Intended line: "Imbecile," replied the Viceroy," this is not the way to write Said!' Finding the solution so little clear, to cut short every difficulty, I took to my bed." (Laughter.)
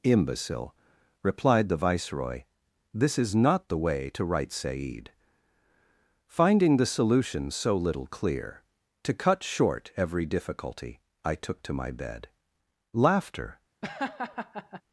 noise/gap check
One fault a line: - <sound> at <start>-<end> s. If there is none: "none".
- laugh at 13.8-14.8 s